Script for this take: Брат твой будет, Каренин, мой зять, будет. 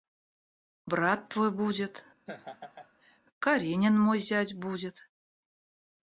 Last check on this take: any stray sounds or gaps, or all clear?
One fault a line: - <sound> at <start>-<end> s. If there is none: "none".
- laugh at 2.3-3.2 s